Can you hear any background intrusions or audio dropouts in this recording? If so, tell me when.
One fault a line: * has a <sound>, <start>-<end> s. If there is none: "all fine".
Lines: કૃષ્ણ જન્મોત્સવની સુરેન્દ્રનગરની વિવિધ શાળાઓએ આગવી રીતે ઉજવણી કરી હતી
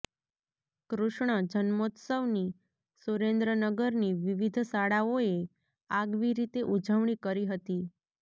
all fine